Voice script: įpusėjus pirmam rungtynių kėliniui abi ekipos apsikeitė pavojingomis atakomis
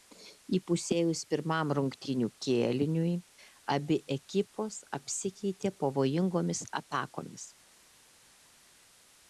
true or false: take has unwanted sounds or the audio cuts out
false